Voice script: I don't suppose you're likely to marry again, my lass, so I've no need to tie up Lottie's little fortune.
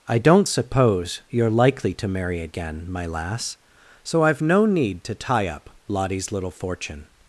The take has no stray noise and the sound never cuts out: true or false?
true